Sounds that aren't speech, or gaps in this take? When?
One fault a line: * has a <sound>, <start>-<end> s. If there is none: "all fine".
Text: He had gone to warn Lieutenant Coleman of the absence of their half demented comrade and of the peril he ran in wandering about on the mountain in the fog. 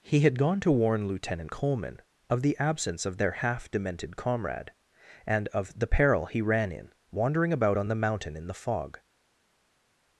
all fine